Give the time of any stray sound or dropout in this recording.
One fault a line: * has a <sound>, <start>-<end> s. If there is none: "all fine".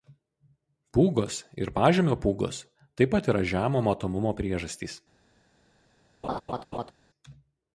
* has a laugh, 6.2-6.9 s